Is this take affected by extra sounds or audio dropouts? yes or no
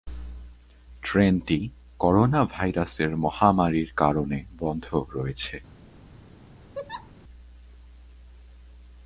yes